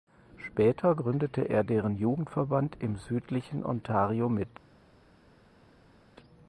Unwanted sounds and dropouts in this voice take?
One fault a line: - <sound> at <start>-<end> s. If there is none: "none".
none